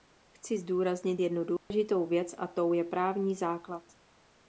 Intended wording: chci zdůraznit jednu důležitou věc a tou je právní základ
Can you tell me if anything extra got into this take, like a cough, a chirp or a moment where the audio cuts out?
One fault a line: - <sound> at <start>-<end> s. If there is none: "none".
- dropout at 1.6-1.7 s